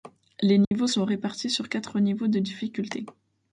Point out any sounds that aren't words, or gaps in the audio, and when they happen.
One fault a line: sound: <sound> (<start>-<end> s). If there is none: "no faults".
sound: dropout (0.6-0.7 s)